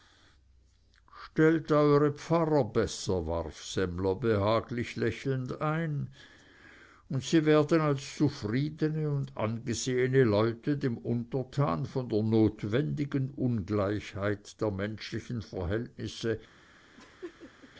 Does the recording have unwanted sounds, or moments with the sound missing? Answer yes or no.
yes